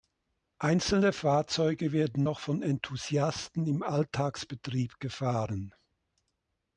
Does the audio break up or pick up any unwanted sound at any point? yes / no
no